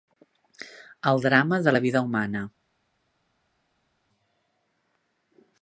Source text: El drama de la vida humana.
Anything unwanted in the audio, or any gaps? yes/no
no